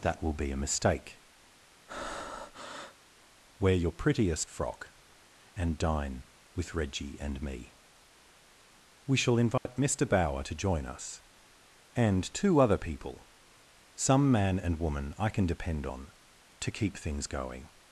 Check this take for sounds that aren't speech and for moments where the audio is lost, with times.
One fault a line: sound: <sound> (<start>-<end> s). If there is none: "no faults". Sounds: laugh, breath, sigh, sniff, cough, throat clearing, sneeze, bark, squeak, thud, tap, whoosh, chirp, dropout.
sound: breath (1.9-3.0 s)
sound: dropout (9.6-9.7 s)